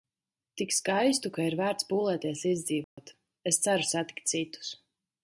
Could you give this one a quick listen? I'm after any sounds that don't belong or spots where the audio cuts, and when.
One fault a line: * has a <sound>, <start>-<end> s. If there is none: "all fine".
* has a dropout, 2.8-3.0 s